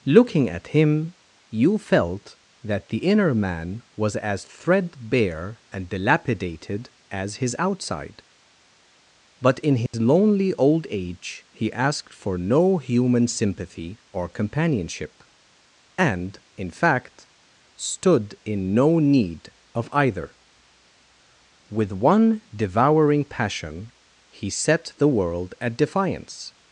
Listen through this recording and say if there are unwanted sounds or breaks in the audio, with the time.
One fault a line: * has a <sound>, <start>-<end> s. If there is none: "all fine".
* has a dropout, 9.9-9.9 s